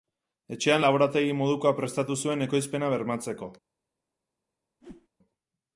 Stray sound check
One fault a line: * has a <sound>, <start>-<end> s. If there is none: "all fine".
* has a whoosh, 4.8-5.1 s